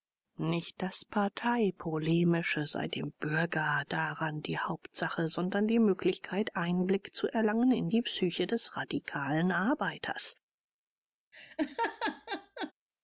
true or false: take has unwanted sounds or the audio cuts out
true